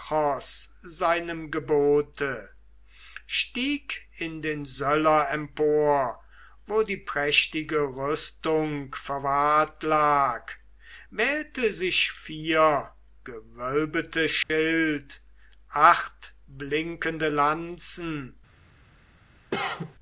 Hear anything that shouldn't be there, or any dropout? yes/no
yes